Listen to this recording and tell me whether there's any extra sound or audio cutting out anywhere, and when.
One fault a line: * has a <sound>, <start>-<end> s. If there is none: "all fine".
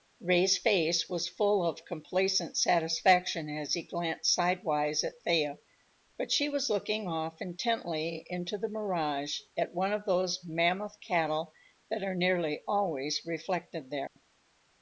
* has a dropout, 14.1-14.2 s